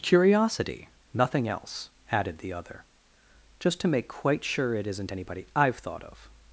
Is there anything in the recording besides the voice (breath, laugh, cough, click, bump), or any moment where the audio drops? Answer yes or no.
no